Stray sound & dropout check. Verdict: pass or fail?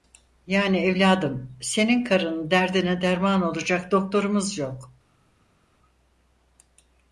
pass